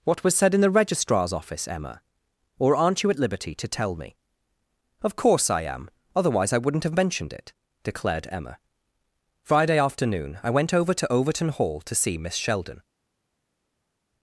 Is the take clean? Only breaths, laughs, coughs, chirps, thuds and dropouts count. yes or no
yes